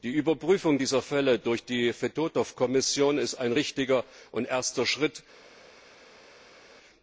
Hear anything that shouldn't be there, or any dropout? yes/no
no